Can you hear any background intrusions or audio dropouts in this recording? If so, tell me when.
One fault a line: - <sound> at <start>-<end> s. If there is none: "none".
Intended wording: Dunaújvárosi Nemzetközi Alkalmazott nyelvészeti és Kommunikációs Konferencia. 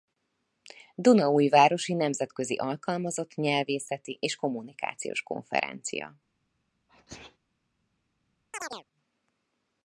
- sneeze at 6.9-7.4 s
- chirp at 8.5-8.8 s